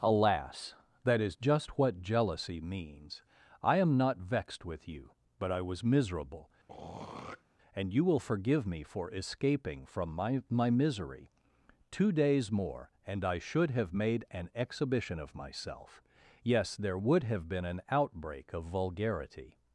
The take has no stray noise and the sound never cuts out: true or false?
false